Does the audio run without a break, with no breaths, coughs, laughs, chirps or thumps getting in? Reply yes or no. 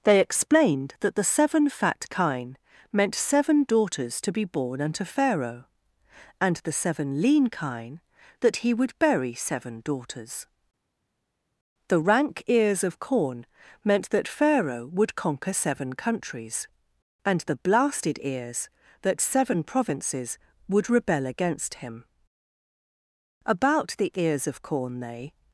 yes